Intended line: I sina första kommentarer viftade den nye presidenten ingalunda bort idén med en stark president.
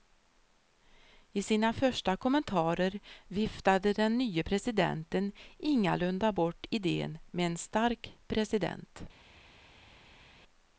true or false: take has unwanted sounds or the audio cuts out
false